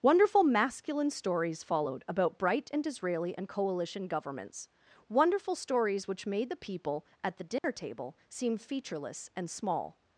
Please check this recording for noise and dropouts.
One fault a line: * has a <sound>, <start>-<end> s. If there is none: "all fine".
* has a dropout, 7.6-7.6 s